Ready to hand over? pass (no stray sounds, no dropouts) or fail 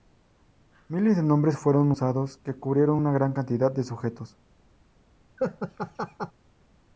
fail